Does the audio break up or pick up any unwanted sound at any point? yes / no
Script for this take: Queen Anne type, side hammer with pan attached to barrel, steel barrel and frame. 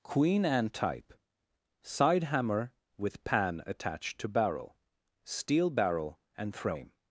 no